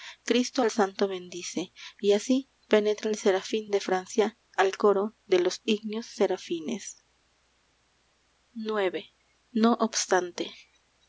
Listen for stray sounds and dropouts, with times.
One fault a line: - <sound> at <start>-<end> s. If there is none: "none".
none